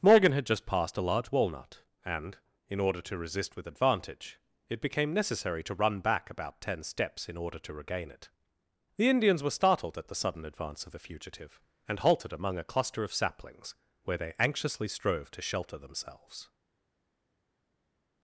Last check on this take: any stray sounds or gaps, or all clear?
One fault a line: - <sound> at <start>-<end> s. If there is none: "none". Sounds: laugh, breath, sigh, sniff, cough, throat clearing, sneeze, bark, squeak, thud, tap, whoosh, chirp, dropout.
none